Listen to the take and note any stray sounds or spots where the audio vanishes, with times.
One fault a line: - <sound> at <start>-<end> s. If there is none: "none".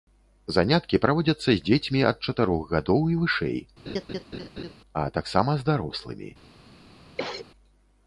- laugh at 3.9-4.7 s
- cough at 7.2-7.5 s